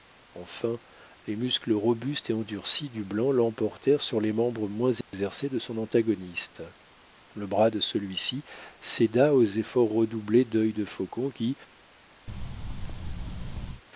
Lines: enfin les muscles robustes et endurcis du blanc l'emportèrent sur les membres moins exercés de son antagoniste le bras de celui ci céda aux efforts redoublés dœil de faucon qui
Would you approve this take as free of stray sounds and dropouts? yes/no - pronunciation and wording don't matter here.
no